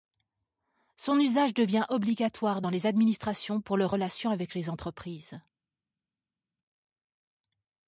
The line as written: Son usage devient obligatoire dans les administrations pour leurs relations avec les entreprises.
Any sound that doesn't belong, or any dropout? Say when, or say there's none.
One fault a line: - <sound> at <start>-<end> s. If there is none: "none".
none